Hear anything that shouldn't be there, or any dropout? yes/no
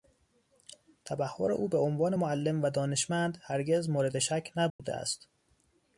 yes